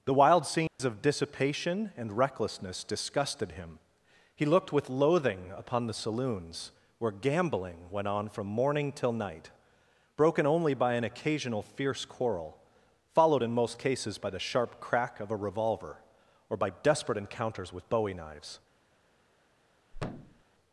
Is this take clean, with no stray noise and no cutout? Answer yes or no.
no